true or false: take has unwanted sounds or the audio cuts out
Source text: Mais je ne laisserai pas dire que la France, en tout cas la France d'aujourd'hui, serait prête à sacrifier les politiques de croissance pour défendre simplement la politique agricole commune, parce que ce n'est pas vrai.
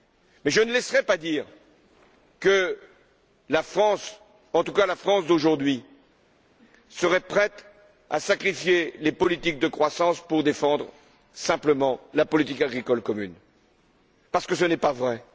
false